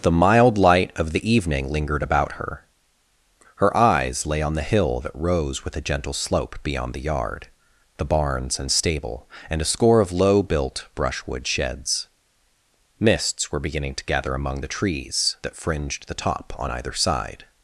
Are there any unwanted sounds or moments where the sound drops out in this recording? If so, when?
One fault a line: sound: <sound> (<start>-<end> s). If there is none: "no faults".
no faults